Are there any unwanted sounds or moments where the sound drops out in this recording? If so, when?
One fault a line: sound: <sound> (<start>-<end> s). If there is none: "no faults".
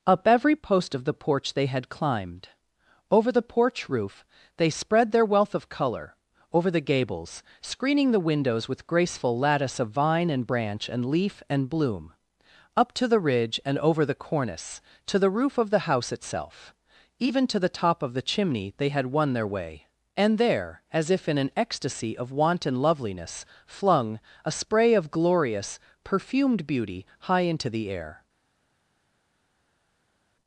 no faults